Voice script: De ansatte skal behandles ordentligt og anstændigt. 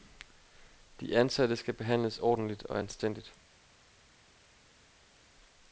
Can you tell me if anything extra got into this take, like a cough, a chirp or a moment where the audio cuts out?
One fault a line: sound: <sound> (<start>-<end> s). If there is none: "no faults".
no faults